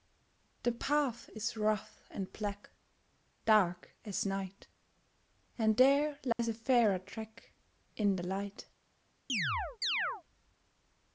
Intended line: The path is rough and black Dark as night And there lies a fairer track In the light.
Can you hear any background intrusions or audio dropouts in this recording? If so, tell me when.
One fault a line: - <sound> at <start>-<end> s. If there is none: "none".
- dropout at 6.3-6.4 s
- chirp at 9.3-10.2 s